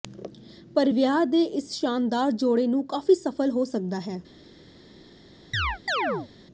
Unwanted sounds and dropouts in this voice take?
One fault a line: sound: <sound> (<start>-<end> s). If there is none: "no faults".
sound: chirp (5.5-6.3 s)